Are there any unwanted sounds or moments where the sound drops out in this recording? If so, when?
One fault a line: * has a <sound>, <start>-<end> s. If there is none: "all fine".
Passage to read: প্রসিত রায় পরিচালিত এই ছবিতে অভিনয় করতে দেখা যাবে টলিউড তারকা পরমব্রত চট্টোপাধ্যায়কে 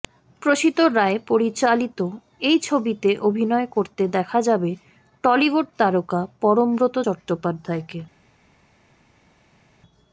all fine